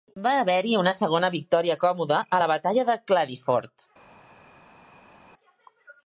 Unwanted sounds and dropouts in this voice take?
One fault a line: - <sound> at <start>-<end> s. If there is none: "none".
none